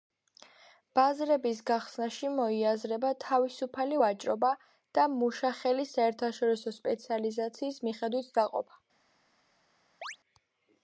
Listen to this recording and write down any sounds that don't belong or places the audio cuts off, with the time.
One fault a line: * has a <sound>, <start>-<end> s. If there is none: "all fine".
* has a chirp, 10.0-10.2 s